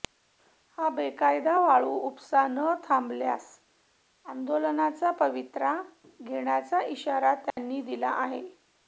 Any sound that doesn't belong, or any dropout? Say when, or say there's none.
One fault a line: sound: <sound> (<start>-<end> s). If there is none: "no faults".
sound: dropout (7.5-7.6 s)